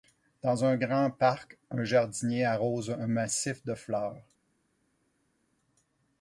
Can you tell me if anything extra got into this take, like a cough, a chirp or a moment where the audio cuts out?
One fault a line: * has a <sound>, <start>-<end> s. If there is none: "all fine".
all fine